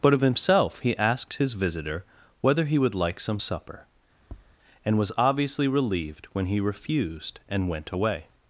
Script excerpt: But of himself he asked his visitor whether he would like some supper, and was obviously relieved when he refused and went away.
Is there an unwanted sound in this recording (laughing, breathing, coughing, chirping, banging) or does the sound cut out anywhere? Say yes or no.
yes